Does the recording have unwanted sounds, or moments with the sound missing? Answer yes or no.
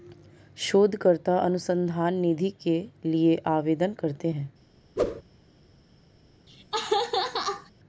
yes